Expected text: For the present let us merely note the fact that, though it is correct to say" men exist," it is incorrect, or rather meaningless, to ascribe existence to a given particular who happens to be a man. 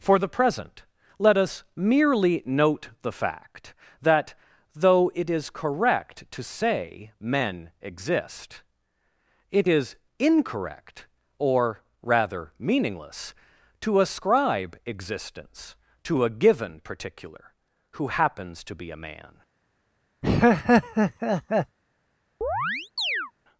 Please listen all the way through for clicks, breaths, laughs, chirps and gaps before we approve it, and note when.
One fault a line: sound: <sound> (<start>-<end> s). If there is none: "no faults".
sound: laugh (20.2-21.8 s)
sound: chirp (22.4-23.3 s)